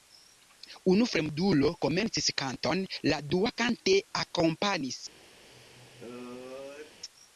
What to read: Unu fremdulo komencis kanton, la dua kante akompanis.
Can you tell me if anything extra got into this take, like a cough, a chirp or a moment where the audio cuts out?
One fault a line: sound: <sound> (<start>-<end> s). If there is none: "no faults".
sound: sneeze (5.5-7.0 s)